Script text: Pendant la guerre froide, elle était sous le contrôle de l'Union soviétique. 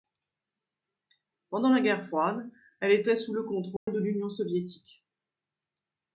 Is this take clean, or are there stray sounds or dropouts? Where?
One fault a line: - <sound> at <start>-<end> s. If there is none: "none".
- dropout at 3.8-3.9 s